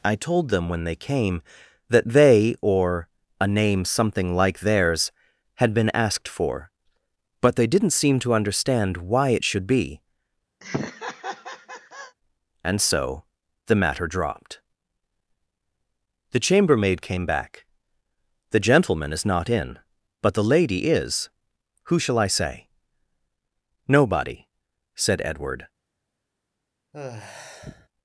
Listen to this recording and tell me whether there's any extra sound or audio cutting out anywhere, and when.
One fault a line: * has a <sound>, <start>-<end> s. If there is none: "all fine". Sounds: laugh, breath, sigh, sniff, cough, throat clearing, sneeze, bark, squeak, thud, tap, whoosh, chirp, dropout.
* has a laugh, 10.6-12.2 s
* has a sigh, 26.9-27.9 s